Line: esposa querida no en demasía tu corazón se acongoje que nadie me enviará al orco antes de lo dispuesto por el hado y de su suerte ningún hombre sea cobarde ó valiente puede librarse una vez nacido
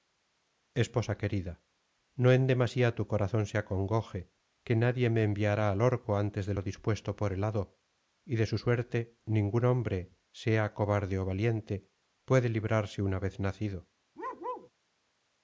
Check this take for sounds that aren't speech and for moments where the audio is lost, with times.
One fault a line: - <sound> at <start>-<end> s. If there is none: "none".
- bark at 14.2-14.7 s